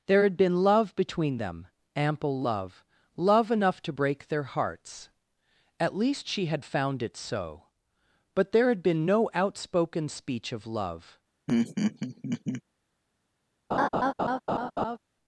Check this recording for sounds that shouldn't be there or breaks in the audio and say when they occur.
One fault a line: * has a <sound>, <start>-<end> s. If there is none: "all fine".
* has a laugh, 11.5-12.6 s
* has a laugh, 13.7-15.0 s